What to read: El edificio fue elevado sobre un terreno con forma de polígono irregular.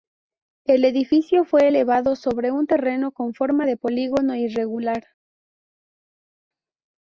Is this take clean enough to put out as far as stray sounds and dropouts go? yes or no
yes